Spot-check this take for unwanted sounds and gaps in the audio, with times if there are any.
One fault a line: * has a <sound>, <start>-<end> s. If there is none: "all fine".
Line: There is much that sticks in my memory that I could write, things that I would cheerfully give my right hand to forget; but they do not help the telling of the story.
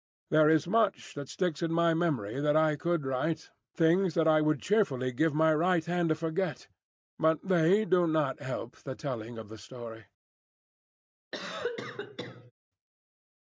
* has a cough, 11.3-12.5 s